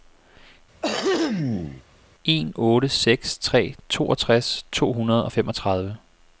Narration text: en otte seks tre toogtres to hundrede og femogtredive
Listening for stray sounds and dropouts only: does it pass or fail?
fail